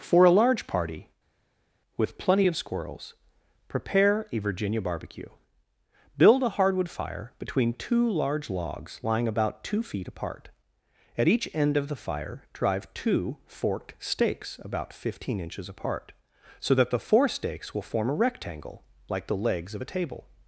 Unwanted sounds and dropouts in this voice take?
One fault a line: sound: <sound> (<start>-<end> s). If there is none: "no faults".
no faults